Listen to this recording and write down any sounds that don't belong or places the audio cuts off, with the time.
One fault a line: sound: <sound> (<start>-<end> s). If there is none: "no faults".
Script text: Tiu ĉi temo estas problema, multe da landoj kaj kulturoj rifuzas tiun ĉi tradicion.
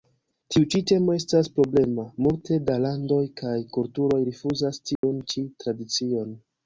sound: dropout (5.0-5.0 s)